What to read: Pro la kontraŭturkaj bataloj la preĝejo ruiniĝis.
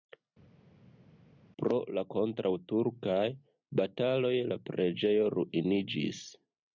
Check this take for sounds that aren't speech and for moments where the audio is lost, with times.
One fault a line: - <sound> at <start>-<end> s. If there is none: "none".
none